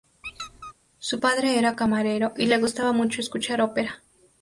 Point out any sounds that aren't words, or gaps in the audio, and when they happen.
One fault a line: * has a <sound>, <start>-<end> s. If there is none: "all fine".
* has a squeak, 0.2-0.7 s